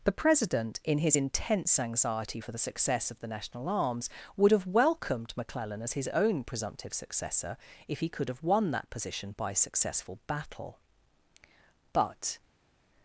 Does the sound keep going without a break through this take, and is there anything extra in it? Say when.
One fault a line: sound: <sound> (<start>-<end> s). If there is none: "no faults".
no faults